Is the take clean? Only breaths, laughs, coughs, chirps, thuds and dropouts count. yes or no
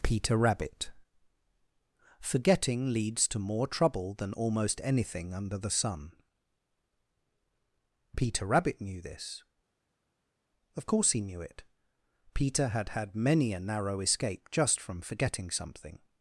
yes